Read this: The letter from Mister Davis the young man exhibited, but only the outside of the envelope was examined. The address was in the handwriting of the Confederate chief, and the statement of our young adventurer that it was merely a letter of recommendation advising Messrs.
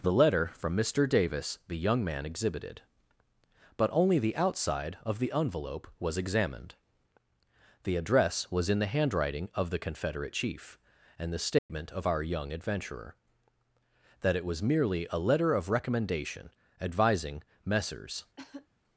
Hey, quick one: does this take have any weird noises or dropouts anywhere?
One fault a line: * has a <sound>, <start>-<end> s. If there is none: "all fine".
* has a dropout, 11.6-11.7 s
* has a cough, 18.4-18.7 s